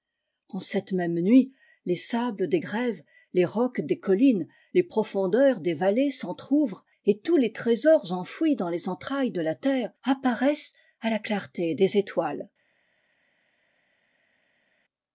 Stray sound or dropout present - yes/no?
no